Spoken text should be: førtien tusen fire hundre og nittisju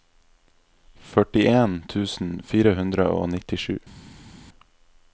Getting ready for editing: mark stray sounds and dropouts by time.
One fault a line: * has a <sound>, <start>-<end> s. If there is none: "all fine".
all fine